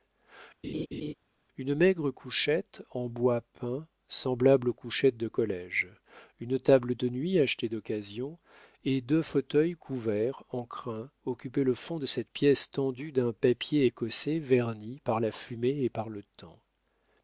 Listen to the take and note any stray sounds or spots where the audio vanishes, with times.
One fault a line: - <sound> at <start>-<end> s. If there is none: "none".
- laugh at 0.6-1.1 s